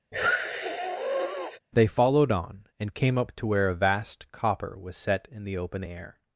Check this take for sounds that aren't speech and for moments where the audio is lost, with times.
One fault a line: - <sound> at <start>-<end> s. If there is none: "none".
- sniff at 0.1-1.6 s